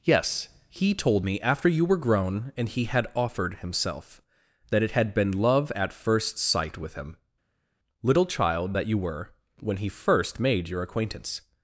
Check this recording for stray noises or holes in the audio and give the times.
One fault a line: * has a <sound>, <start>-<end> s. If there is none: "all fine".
all fine